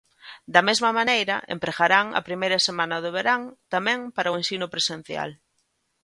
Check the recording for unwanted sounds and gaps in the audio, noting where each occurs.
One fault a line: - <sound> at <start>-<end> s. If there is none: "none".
none